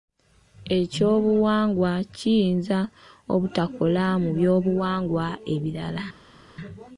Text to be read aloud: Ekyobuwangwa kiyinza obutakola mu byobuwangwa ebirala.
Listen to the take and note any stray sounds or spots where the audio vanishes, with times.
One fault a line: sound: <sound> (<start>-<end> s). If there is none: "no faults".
no faults